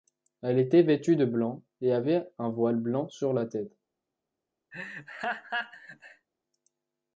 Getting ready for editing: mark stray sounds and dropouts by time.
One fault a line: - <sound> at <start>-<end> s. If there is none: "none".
- laugh at 4.7-6.3 s